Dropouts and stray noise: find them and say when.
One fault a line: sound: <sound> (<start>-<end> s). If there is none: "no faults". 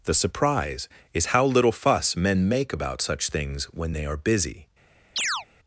sound: chirp (5.2-5.5 s)